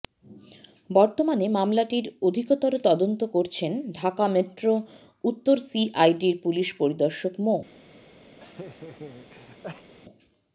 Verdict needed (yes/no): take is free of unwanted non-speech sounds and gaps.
no